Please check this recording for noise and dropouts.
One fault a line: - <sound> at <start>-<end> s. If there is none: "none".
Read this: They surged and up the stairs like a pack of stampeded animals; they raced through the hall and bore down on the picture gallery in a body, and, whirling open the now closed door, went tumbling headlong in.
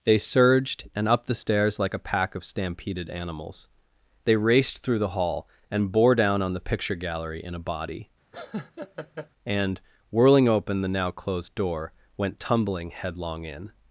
- laugh at 8.3-9.3 s